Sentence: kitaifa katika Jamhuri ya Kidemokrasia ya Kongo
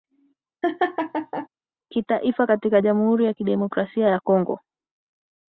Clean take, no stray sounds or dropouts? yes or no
no